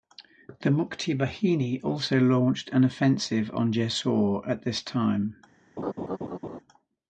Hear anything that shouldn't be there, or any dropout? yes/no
yes